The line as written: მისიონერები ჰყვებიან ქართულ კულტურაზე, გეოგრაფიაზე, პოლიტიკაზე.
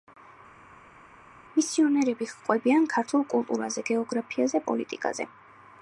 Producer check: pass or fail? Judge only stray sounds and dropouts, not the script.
pass